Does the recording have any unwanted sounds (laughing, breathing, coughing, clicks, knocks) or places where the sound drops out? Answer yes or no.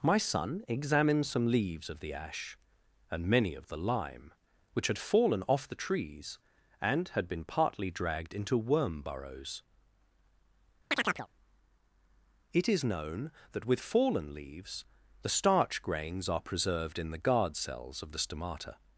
yes